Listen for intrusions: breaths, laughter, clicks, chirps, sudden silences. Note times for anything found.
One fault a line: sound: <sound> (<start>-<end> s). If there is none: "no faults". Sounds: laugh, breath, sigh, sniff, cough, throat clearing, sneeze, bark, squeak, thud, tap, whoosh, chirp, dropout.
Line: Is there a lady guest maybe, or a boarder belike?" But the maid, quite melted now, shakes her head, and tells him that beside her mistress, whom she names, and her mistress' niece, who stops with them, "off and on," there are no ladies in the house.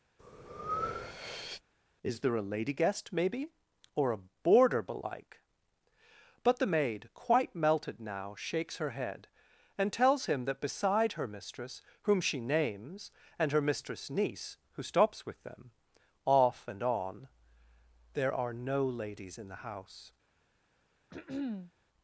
sound: breath (0.2-1.6 s)
sound: throat clearing (21.1-21.7 s)